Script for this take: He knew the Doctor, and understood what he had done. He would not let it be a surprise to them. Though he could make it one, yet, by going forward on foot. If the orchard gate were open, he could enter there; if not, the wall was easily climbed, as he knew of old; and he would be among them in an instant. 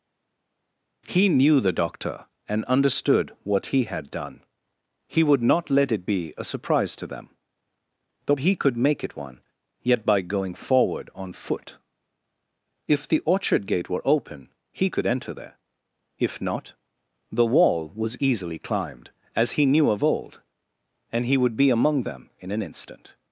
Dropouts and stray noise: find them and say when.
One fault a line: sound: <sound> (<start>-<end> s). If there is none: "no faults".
no faults